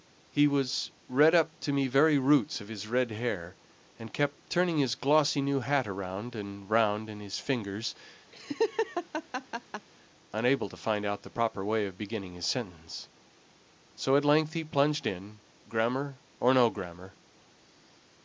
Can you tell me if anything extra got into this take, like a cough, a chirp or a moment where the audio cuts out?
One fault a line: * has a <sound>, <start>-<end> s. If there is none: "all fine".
* has a laugh, 8.3-9.9 s